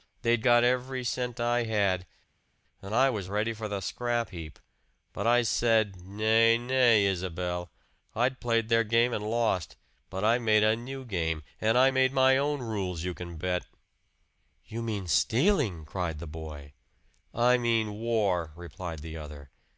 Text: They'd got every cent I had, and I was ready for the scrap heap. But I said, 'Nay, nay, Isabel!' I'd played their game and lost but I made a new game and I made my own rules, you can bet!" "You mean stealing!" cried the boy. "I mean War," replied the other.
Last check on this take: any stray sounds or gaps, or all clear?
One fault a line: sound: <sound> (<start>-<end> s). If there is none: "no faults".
no faults